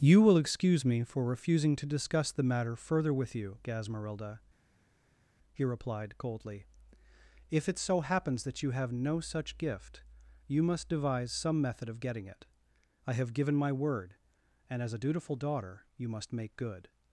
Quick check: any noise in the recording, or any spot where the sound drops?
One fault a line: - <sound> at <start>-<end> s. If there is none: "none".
none